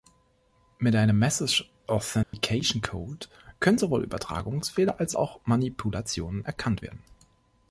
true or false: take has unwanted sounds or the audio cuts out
true